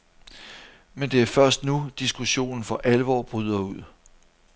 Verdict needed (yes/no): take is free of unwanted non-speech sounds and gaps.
yes